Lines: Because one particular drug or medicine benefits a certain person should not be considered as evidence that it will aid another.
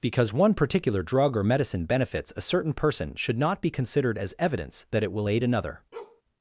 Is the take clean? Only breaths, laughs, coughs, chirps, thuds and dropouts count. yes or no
no